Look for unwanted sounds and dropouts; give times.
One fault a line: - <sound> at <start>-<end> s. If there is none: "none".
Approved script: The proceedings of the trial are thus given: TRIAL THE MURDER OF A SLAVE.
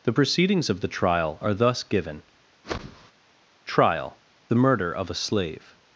- whoosh at 2.6-3.1 s